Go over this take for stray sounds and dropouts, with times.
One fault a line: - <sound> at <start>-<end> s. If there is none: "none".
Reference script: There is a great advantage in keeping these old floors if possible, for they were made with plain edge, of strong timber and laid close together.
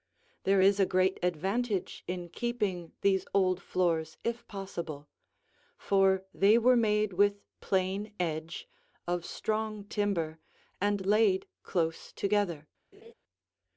- laugh at 12.9-13.1 s